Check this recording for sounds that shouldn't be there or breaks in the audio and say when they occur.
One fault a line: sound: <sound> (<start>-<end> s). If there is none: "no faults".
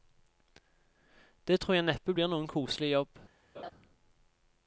sound: laugh (3.5-3.7 s)